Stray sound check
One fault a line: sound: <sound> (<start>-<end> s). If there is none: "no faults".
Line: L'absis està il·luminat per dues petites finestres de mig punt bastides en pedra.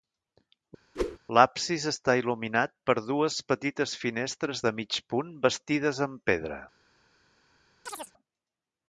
sound: whoosh (1.0-1.2 s)
sound: chirp (7.9-8.1 s)